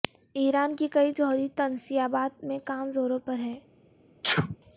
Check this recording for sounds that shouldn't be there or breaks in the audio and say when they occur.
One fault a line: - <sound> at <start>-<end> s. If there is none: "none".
- sneeze at 4.2-4.6 s